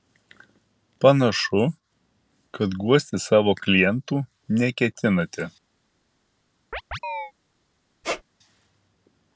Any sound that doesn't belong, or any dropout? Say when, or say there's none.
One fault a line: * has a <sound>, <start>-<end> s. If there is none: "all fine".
* has a chirp, 6.7-7.3 s
* has a squeak, 8.0-8.2 s